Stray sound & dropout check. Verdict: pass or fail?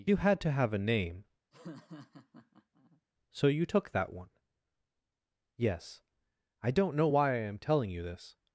fail